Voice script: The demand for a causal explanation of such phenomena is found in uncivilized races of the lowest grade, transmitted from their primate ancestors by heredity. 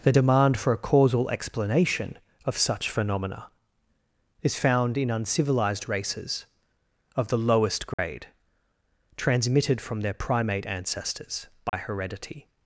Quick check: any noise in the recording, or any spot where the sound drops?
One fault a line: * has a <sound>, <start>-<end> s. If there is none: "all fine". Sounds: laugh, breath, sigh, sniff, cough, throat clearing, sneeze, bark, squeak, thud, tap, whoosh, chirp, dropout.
* has a dropout, 7.9-8.0 s
* has a dropout, 11.7-11.7 s